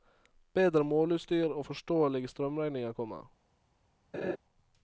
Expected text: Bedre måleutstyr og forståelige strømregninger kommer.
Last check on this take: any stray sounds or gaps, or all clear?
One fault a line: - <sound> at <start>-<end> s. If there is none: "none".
- laugh at 4.1-4.4 s